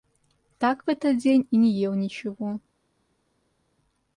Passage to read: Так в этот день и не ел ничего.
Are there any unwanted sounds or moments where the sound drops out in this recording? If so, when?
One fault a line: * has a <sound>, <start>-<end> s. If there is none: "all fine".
all fine